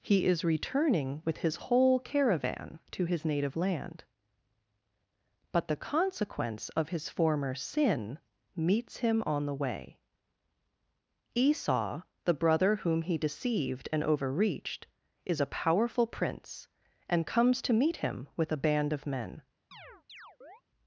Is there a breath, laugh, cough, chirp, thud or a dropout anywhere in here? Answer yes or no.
yes